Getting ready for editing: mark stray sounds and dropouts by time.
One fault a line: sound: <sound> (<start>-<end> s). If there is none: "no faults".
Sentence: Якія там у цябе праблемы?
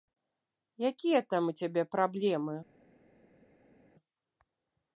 no faults